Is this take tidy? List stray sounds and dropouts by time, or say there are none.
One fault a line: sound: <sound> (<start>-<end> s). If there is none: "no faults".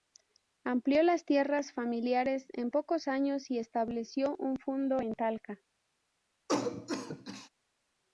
sound: cough (6.5-7.5 s)